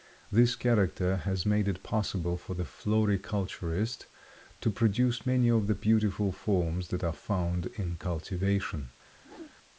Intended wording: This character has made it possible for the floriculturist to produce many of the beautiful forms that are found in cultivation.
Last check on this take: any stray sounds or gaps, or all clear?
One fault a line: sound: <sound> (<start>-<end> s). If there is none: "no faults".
sound: whoosh (9.2-9.6 s)